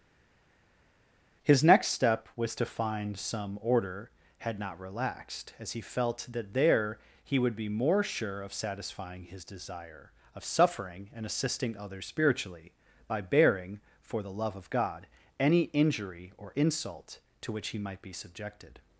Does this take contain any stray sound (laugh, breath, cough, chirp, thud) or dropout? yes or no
no